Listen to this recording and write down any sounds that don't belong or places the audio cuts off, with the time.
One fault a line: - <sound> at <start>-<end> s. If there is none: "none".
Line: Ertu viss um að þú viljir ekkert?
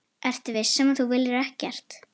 none